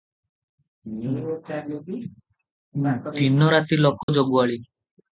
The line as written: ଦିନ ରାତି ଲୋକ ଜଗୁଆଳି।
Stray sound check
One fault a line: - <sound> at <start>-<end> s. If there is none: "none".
- dropout at 4.0-4.1 s